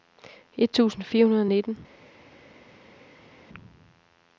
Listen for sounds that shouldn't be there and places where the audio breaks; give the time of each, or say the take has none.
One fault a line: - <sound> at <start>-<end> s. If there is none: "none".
none